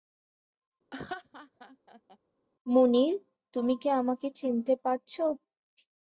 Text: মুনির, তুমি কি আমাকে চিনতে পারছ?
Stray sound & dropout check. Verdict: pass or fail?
fail